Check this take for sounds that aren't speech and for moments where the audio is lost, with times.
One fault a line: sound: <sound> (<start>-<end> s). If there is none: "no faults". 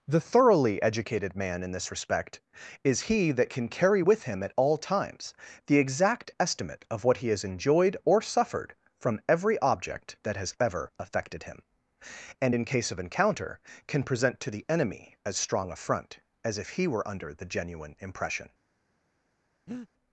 sound: breath (19.7-19.9 s)